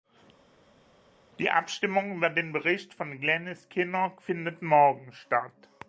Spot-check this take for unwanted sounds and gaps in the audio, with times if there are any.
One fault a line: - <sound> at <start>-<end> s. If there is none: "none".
none